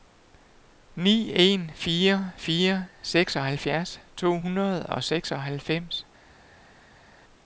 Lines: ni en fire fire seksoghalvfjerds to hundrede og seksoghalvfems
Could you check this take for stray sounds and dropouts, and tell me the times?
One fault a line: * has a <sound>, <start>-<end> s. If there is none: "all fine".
all fine